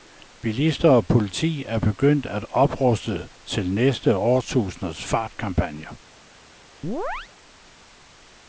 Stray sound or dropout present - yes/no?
yes